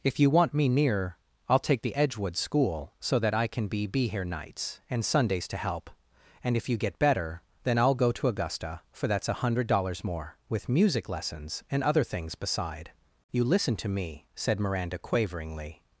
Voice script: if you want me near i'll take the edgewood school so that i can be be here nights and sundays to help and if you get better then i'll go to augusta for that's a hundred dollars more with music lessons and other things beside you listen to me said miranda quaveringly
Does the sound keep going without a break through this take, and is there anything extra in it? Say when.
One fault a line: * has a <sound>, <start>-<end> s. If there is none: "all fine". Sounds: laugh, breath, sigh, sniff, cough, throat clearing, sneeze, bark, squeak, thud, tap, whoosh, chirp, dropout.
all fine